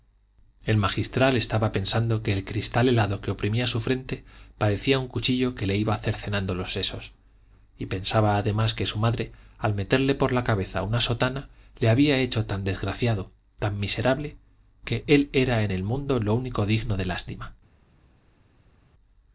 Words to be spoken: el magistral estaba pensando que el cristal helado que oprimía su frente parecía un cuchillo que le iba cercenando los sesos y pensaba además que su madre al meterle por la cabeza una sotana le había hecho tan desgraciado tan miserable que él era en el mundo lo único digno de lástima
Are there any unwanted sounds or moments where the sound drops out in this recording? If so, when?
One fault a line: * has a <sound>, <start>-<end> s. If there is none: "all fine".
all fine